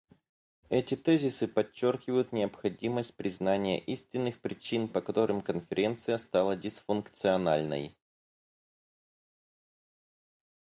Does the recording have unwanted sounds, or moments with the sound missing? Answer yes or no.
no